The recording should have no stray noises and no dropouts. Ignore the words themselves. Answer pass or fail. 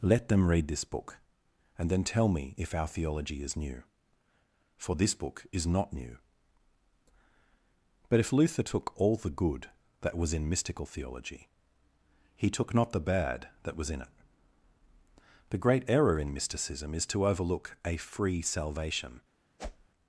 fail